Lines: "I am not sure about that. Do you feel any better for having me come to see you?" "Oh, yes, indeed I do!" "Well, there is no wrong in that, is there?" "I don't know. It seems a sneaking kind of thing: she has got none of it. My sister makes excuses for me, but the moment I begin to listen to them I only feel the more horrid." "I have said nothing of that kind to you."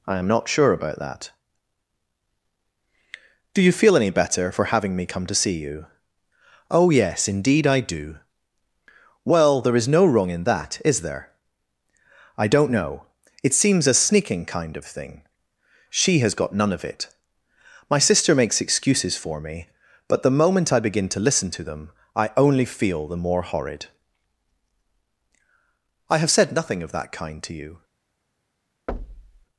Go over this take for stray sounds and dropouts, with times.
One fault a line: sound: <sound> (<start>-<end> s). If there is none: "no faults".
sound: thud (28.9-29.5 s)